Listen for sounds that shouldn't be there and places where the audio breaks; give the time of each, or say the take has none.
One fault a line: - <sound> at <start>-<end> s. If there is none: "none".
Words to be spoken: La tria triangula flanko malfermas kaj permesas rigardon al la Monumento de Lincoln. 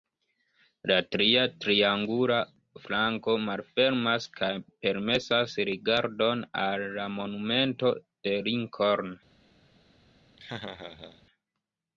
- laugh at 10.4-11.3 s